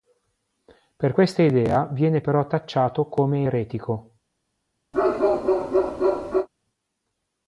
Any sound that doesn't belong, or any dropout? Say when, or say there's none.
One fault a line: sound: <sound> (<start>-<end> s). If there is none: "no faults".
sound: bark (4.9-6.5 s)